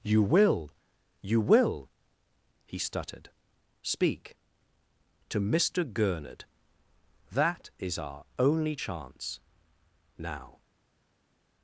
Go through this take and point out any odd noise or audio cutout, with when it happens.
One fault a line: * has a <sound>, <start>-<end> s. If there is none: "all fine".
all fine